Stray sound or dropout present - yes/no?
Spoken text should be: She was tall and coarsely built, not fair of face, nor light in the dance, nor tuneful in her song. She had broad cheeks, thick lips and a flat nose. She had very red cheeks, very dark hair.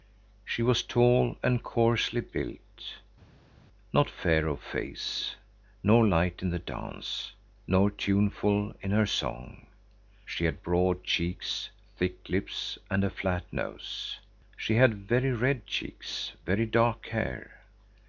no